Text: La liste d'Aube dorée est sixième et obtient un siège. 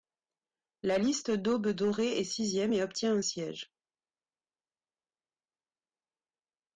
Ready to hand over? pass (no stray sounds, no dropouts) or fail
pass